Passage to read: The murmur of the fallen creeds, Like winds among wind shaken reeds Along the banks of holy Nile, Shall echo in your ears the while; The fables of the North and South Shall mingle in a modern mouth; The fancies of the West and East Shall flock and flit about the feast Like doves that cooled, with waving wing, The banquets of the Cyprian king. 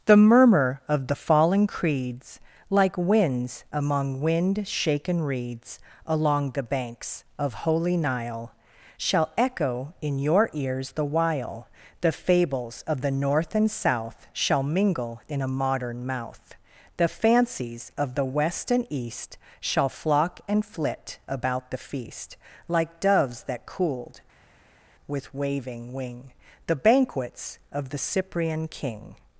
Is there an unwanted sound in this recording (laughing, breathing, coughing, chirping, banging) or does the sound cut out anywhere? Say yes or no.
no